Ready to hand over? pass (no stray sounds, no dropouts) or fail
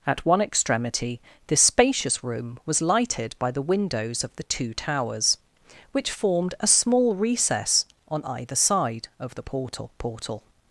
pass